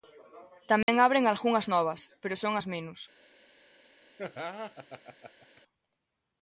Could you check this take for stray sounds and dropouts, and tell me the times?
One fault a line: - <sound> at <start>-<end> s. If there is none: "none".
- dropout at 0.8-0.9 s
- laugh at 4.2-5.6 s